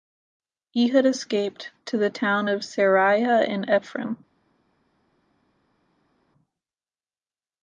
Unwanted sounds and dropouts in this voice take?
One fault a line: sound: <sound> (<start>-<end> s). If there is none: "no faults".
no faults